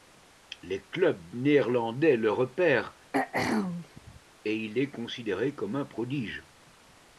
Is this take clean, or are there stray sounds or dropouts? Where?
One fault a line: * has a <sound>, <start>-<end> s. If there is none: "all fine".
* has a throat clearing, 3.1-4.2 s